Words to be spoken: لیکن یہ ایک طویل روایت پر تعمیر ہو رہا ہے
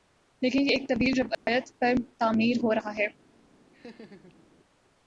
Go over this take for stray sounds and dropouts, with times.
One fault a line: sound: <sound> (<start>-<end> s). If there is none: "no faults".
sound: dropout (1.3-1.5 s)
sound: laugh (3.7-4.5 s)